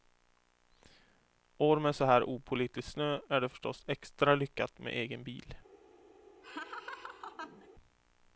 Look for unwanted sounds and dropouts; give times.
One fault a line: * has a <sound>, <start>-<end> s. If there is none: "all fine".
* has a laugh, 6.4-7.7 s